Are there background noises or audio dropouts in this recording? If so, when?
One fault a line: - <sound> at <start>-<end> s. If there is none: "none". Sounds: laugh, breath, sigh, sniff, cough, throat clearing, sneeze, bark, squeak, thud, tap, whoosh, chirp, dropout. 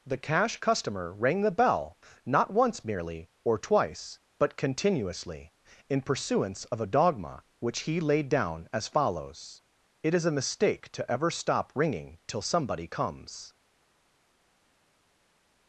none